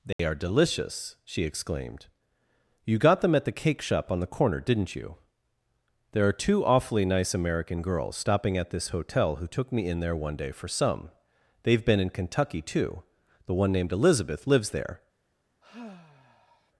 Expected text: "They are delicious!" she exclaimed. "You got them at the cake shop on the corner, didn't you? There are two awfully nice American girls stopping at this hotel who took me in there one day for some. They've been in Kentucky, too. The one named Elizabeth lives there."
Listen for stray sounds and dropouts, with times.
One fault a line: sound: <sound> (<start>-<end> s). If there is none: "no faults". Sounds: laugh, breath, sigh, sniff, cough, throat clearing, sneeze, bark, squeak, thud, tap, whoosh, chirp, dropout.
sound: dropout (0.1-0.2 s)
sound: sigh (15.6-16.7 s)